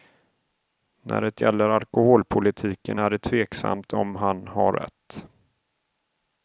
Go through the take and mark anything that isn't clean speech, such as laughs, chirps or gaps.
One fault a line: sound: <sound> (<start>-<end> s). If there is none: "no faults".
no faults